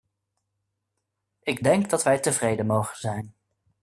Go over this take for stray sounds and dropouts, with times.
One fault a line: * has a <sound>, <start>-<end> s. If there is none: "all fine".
all fine